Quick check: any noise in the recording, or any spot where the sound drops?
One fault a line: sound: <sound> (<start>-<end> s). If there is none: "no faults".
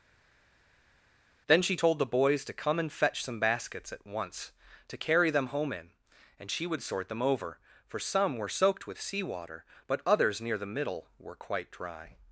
no faults